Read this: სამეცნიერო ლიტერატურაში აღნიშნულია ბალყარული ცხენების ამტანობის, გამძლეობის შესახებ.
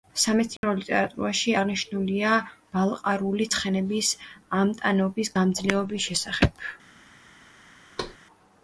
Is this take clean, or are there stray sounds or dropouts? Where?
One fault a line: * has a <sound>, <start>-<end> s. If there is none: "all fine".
* has a dropout, 0.6-0.6 s
* has a thud, 8.0-8.2 s